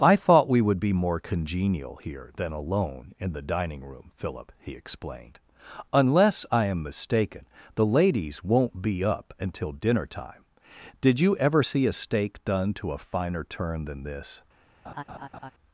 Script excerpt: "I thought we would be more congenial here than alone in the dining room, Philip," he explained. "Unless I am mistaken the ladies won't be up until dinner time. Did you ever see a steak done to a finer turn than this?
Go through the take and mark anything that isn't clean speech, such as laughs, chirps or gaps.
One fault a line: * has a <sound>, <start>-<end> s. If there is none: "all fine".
* has a laugh, 14.8-15.5 s